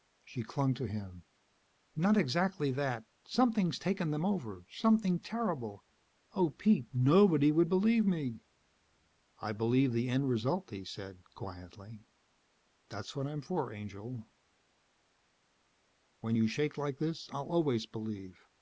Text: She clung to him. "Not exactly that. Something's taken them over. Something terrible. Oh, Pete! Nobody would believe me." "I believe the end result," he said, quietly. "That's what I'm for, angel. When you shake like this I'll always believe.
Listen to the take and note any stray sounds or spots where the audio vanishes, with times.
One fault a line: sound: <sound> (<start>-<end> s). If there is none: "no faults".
no faults